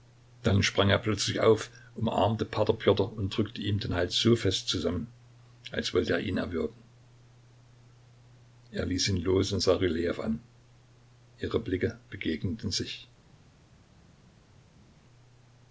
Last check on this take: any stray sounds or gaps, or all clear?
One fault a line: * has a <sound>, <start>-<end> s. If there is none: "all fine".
all fine